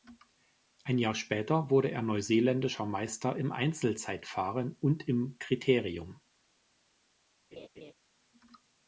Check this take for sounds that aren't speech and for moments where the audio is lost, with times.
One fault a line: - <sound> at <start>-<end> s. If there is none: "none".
- laugh at 7.5-7.9 s